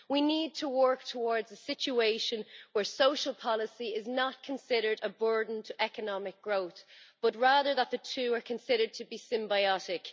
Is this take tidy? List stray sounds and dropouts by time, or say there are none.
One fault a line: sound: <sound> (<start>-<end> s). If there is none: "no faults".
no faults